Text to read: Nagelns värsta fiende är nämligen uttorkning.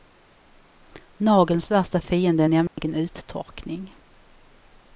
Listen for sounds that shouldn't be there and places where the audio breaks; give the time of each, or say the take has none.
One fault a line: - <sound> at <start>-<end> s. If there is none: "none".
- dropout at 2.7-2.8 s